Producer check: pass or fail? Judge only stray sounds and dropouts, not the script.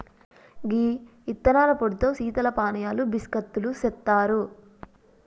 pass